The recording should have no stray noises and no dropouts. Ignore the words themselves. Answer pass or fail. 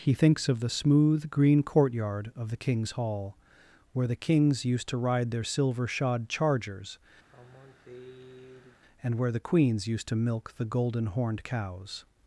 fail